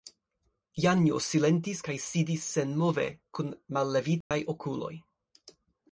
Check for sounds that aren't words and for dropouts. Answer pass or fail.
fail